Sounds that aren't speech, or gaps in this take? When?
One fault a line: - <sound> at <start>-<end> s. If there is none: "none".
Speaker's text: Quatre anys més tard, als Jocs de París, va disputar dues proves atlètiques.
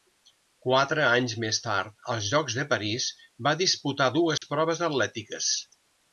- dropout at 4.4-4.4 s